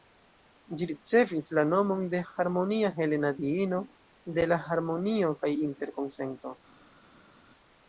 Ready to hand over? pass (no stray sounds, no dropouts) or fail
pass